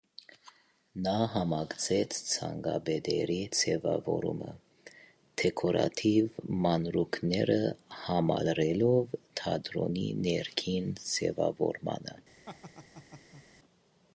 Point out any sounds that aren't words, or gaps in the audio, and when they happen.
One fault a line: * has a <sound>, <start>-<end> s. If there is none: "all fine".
* has a laugh, 12.5-13.4 s